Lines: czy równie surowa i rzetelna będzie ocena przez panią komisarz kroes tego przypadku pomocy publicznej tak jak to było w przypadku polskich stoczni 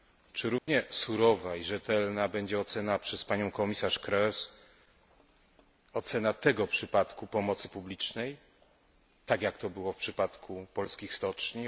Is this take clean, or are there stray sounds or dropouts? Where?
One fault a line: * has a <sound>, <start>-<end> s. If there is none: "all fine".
* has a dropout, 0.6-0.7 s